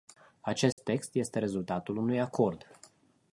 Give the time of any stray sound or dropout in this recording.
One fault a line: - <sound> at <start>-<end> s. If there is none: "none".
- dropout at 0.7-0.8 s